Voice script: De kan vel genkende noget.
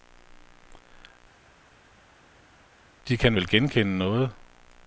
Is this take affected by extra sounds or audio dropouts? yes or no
no